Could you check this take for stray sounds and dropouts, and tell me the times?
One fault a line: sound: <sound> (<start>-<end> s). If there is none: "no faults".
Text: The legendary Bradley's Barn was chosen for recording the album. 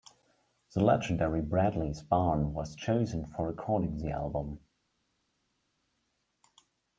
no faults